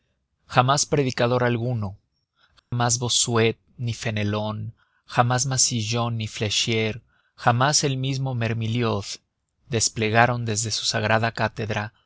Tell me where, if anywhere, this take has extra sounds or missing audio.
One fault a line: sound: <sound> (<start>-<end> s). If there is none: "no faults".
sound: dropout (2.6-2.7 s)